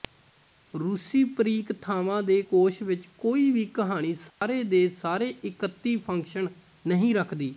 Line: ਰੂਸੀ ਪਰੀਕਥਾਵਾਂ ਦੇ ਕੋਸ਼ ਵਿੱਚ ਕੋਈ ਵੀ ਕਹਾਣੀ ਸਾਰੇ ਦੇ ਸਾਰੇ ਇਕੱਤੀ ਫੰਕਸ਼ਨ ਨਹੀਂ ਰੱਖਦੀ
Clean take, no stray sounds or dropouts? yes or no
no